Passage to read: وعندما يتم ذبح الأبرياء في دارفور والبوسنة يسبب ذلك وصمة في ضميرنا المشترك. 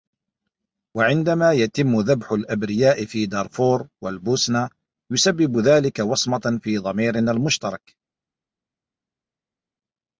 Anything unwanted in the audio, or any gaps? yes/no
no